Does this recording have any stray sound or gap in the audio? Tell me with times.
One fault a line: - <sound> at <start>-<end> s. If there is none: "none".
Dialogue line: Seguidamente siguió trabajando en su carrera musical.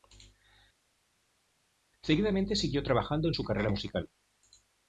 none